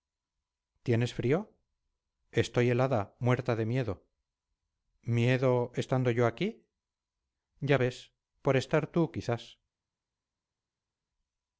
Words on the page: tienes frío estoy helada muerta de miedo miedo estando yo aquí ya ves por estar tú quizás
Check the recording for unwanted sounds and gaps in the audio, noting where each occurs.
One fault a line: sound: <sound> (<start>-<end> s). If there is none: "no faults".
no faults